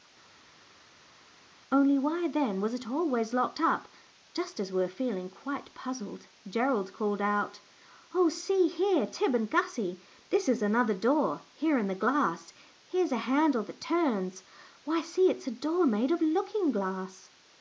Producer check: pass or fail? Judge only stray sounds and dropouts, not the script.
pass